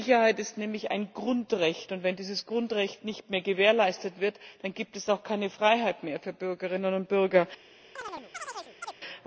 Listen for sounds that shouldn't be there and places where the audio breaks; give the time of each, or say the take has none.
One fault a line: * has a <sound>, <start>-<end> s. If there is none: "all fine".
* has a chirp, 8.0-8.9 s